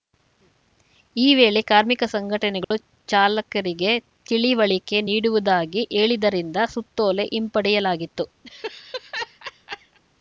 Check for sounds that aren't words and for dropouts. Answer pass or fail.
fail